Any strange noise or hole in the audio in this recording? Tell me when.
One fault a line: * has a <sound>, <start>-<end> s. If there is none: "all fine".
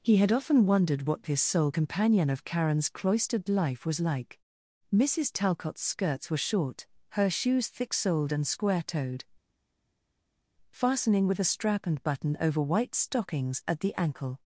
all fine